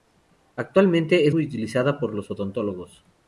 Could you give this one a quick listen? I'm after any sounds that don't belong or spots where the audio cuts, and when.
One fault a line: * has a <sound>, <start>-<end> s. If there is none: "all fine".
all fine